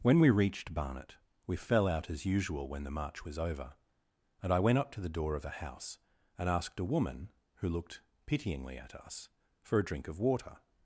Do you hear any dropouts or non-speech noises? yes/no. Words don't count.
no